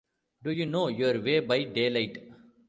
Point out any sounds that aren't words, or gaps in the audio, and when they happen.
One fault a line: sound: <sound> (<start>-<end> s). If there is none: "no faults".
no faults